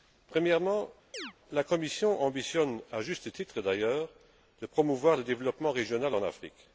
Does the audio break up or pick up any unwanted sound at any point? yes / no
yes